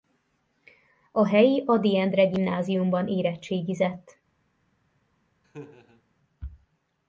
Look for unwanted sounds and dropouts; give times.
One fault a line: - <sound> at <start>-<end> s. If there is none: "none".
- laugh at 5.4-6.0 s